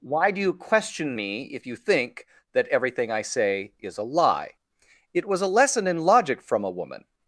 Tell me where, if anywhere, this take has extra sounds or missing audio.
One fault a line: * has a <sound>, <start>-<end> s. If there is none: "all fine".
all fine